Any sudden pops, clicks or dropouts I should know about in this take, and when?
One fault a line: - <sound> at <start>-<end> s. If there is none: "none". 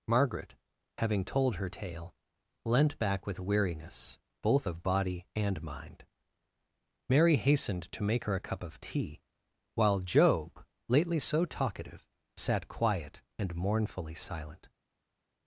none